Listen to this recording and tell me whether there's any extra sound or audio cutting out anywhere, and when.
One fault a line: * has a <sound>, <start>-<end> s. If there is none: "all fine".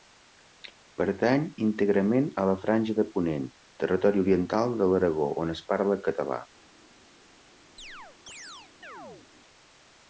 * has a chirp, 7.8-9.3 s